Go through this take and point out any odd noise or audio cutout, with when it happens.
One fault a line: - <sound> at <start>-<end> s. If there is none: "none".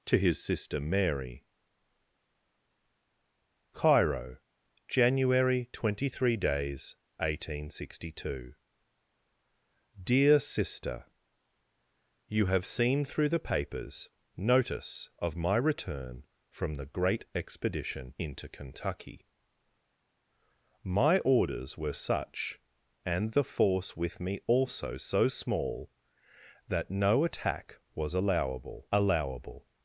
none